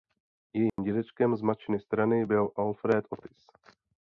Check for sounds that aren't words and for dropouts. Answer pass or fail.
fail